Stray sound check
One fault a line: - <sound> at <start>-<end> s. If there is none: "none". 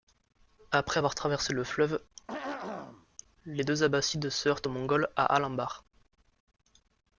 - throat clearing at 2.3-3.1 s